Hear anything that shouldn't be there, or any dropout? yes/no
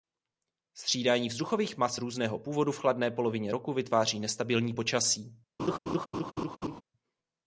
yes